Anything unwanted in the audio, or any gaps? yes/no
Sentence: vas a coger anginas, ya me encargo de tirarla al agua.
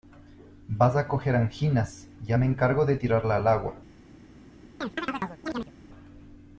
yes